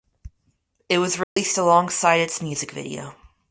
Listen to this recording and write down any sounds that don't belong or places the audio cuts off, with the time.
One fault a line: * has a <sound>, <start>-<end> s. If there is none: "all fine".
* has a dropout, 1.2-1.4 s